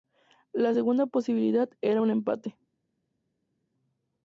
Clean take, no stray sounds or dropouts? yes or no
yes